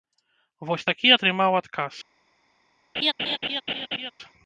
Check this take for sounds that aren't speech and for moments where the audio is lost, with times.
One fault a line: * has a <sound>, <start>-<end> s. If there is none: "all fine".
* has a laugh, 2.9-4.1 s